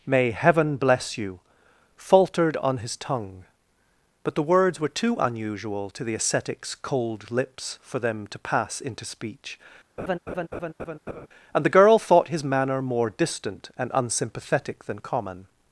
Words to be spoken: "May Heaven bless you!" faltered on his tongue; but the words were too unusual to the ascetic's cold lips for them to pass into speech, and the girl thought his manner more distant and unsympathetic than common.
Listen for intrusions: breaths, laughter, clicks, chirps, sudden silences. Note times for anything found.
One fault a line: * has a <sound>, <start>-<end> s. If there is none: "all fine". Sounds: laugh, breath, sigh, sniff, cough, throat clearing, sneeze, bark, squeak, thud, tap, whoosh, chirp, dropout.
* has a laugh, 10.0-11.3 s